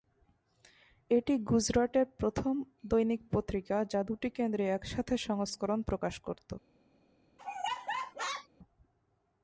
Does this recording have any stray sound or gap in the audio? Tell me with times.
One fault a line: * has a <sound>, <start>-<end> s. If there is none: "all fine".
* has a laugh, 7.4-8.5 s